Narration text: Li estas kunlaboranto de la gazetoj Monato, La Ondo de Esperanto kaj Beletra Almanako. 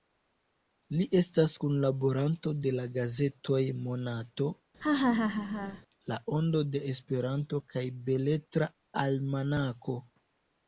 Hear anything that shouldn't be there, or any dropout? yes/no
yes